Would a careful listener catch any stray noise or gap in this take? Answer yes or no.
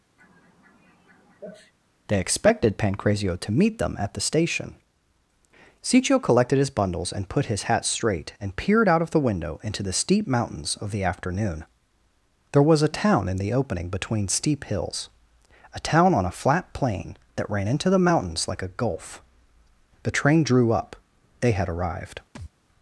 yes